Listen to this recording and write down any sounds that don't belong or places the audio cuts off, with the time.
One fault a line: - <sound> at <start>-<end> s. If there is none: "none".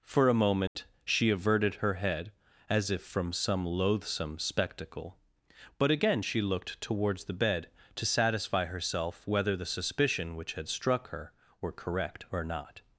- dropout at 0.7-0.8 s